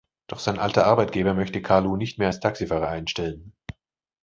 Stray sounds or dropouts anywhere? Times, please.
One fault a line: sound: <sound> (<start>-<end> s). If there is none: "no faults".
no faults